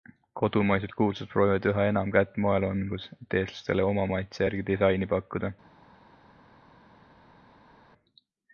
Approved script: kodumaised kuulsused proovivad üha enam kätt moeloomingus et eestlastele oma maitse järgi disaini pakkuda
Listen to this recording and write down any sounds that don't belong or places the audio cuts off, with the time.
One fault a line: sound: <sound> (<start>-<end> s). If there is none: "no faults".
no faults